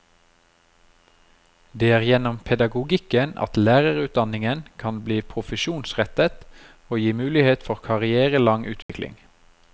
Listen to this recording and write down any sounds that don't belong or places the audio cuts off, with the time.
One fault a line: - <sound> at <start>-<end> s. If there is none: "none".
- dropout at 8.8-8.9 s